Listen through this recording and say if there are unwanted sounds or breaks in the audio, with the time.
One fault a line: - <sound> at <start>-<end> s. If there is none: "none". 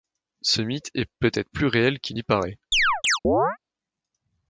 - chirp at 2.7-3.6 s